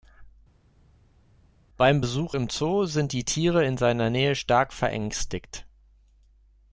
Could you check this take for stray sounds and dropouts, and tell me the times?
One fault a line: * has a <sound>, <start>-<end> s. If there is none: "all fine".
all fine